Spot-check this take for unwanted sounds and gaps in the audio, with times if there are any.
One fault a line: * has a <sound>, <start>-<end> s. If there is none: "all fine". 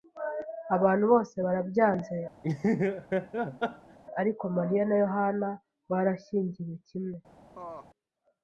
* has a laugh, 2.4-4.0 s
* has a laugh, 7.5-7.9 s